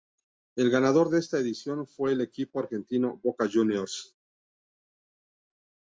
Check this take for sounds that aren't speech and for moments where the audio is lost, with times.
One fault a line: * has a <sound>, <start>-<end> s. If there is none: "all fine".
all fine